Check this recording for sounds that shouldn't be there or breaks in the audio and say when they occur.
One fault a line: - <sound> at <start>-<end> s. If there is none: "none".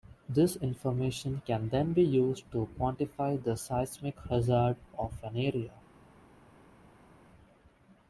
none